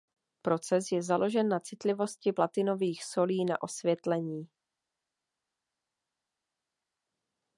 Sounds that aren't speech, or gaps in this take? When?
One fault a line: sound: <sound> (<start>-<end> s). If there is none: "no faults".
no faults